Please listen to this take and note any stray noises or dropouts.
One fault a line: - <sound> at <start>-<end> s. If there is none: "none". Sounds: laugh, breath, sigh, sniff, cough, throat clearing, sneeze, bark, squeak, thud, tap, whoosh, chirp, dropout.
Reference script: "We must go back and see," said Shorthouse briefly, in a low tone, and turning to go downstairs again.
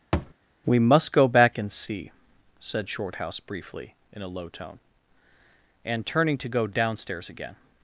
- thud at 0.1-0.3 s